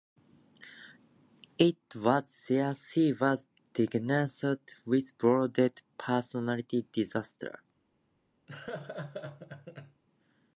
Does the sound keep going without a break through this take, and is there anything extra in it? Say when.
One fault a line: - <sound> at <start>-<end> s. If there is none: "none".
- laugh at 8.5-10.0 s